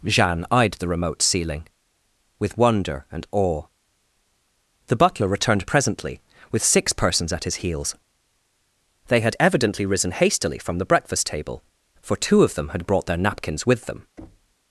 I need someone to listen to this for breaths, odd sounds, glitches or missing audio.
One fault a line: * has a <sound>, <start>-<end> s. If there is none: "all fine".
* has a thud, 14.2-14.5 s